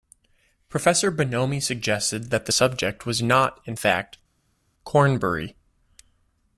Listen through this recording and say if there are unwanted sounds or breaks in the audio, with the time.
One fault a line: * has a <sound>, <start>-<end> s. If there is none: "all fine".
all fine